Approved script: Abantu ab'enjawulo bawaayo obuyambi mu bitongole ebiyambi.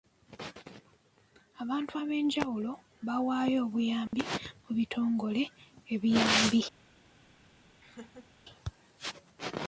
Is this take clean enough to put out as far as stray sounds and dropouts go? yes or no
no